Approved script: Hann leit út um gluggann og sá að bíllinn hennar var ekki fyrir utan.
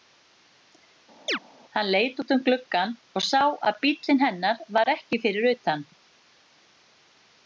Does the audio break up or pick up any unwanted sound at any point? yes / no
yes